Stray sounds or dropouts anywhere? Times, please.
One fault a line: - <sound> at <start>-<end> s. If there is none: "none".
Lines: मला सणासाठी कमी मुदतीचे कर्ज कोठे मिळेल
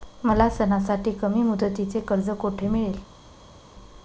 none